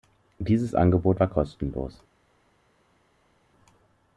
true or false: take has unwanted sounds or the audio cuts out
false